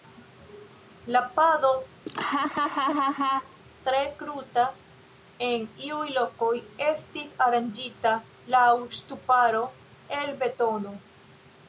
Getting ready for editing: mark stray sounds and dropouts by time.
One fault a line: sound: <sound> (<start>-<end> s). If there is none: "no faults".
sound: laugh (2.1-3.6 s)